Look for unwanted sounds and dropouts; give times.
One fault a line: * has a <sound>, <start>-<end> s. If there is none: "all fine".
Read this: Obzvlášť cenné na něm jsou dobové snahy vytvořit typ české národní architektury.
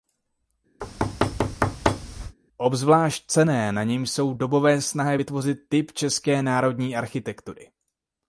* has a thud, 0.8-2.4 s